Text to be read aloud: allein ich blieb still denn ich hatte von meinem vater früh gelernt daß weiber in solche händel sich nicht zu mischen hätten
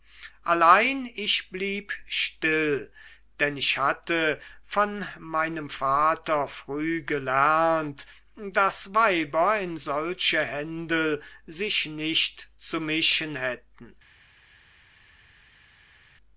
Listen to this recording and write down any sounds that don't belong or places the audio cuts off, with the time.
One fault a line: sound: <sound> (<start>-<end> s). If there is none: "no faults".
no faults